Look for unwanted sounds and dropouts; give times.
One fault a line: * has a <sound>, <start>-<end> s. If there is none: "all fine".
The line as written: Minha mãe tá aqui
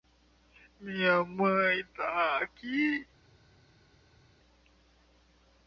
all fine